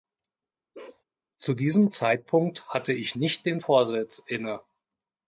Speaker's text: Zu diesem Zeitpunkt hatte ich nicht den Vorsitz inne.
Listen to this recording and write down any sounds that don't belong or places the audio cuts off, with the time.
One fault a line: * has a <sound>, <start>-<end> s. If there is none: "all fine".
* has a bark, 0.7-1.0 s